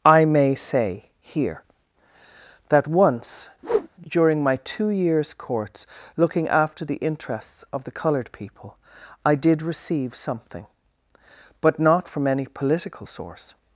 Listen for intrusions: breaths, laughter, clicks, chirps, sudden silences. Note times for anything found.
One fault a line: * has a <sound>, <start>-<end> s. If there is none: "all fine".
* has a whoosh, 3.6-3.9 s